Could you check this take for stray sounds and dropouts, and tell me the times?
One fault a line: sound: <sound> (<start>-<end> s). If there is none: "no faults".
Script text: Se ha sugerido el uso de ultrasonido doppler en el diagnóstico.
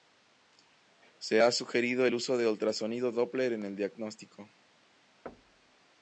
sound: thud (5.3-5.8 s)